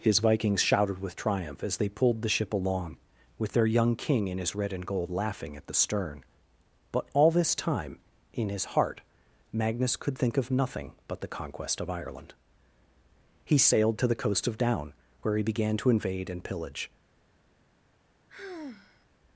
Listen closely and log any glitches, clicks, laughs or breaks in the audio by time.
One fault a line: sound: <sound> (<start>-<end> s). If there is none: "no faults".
sound: sigh (18.3-19.1 s)